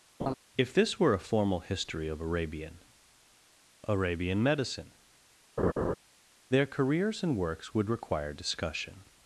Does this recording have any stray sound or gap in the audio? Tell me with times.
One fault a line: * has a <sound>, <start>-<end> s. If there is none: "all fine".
* has a laugh, 0.2-0.3 s
* has a laugh, 5.6-5.9 s